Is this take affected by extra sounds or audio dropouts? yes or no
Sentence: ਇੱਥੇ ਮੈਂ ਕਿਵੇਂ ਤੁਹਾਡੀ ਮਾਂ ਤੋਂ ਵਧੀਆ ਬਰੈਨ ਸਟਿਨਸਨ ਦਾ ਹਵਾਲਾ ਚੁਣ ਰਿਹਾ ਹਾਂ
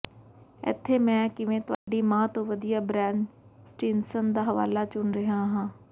yes